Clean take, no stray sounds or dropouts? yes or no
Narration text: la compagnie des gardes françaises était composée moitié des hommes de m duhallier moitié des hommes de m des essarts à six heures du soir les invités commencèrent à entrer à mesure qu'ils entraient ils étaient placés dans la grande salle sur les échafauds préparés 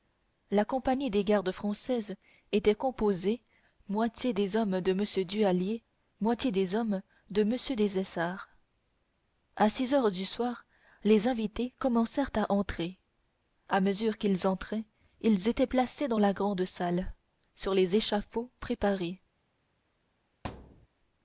no